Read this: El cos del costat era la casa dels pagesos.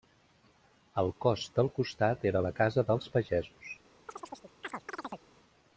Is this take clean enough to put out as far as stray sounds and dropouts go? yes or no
no